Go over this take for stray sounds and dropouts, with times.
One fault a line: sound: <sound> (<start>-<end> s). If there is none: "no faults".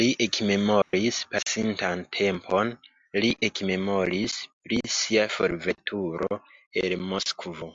sound: dropout (0.8-0.9 s)